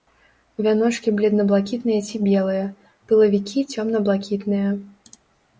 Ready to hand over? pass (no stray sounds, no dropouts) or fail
pass